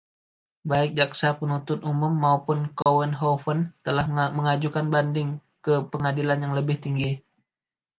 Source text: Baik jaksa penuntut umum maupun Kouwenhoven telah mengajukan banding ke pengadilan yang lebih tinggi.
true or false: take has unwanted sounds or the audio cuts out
true